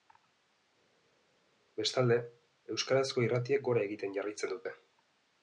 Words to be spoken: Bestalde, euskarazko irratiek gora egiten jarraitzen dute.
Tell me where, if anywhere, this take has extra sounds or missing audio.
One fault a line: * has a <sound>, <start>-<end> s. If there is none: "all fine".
all fine